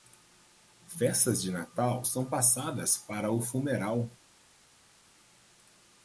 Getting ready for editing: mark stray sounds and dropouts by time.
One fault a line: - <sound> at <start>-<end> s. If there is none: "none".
none